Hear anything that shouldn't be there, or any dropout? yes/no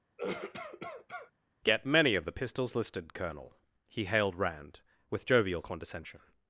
yes